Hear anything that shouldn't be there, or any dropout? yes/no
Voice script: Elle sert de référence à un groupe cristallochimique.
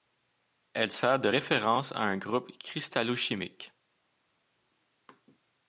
no